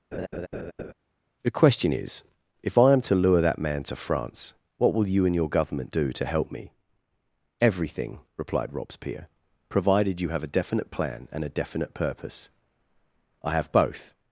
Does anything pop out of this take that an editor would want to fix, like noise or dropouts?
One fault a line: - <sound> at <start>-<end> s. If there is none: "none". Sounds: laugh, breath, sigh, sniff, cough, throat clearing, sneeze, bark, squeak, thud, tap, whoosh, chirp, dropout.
- laugh at 0.1-0.9 s